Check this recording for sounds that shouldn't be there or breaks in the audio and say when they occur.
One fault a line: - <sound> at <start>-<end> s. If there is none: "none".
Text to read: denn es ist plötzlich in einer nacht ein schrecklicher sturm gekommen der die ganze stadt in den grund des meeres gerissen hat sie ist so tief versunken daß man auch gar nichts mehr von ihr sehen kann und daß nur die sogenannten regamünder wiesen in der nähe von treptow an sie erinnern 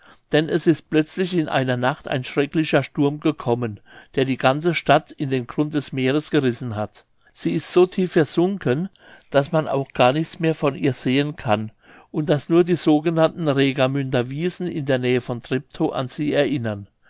none